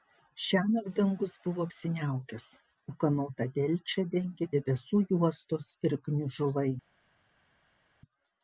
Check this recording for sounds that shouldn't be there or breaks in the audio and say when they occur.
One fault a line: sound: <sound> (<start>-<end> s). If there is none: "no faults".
no faults